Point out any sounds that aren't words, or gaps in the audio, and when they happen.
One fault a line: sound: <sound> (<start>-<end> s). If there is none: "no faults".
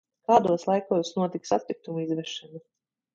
no faults